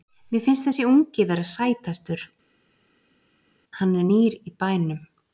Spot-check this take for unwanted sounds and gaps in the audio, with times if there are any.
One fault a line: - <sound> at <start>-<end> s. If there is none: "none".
none